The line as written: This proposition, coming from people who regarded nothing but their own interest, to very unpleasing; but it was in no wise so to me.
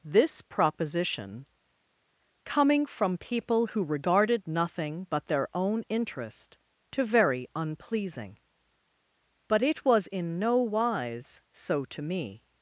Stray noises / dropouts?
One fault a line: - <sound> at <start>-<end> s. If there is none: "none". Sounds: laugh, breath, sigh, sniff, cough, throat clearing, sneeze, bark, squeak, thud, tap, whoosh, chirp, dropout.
none